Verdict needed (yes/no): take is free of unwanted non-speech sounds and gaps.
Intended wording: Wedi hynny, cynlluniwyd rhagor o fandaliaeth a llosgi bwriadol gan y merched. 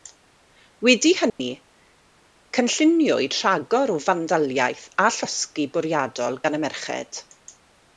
no